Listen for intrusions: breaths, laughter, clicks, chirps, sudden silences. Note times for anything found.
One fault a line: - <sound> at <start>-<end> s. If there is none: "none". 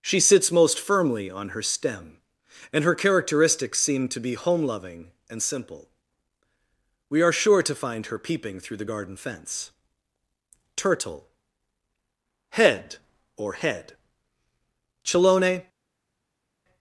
none